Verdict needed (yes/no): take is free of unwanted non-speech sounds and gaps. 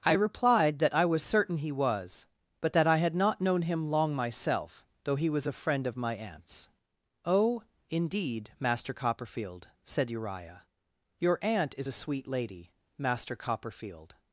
yes